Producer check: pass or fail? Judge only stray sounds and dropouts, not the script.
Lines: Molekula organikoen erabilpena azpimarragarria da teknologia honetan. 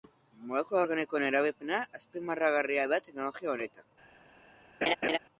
fail